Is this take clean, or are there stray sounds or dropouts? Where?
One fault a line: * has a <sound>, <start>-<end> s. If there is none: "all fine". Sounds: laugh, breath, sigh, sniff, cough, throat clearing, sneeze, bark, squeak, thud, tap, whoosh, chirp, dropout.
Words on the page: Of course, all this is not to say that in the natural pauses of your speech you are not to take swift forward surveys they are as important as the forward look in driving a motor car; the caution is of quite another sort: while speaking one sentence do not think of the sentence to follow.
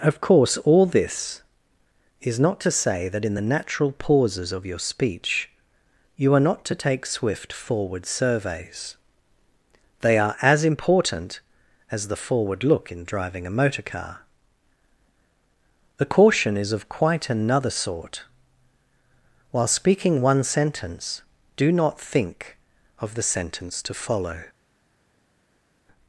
all fine